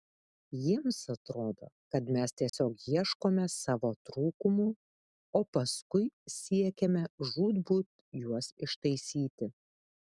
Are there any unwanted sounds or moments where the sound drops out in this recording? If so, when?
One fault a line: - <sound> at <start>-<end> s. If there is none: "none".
- dropout at 2.5-2.5 s